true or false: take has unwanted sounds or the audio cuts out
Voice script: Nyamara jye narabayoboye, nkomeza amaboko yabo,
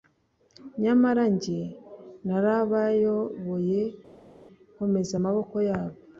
false